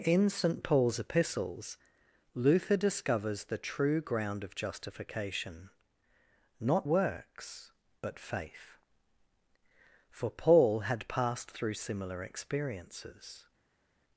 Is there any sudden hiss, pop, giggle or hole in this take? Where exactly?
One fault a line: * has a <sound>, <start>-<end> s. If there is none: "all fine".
all fine